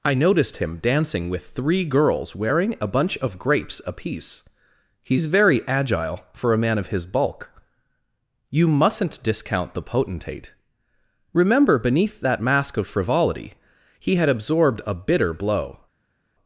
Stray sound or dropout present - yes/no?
no